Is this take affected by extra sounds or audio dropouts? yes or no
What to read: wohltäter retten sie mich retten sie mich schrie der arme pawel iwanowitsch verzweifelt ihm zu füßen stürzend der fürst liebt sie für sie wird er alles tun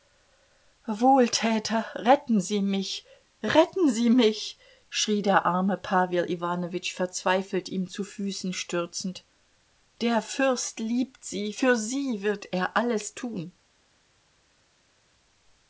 no